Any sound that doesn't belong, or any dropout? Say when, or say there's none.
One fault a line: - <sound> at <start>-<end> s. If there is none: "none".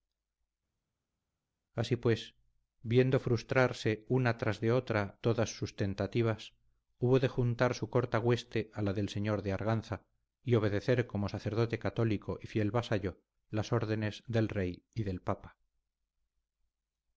none